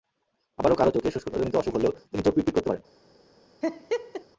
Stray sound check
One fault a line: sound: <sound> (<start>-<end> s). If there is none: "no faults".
sound: laugh (3.6-4.2 s)